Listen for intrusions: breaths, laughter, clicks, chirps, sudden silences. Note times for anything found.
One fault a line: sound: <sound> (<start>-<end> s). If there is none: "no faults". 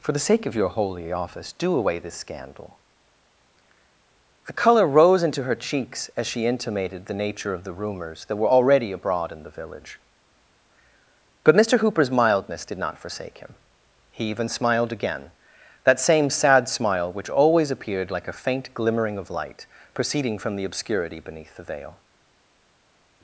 no faults